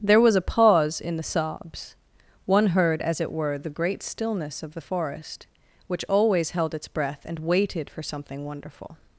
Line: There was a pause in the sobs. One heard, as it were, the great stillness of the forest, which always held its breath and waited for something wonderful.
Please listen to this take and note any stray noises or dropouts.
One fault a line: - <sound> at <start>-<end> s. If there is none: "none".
none